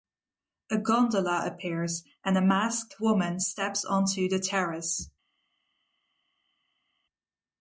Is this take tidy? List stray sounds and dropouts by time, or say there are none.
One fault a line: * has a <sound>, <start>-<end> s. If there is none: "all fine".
all fine